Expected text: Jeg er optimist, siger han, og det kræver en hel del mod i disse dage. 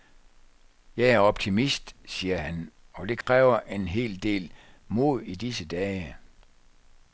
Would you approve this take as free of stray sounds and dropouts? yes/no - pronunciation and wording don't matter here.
no